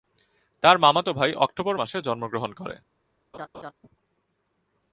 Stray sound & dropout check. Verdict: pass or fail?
fail